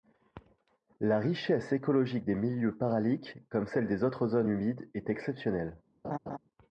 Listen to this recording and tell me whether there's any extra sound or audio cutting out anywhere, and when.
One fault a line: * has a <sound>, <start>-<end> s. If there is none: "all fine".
* has a laugh, 6.0-6.4 s